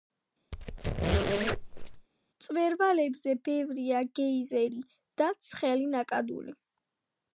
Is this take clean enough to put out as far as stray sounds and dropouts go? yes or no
no